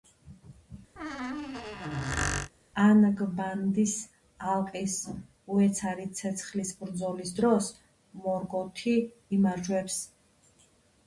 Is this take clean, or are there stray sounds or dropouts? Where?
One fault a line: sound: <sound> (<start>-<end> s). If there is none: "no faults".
sound: squeak (1.0-2.5 s)